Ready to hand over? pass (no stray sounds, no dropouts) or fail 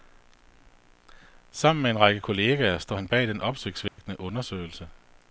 fail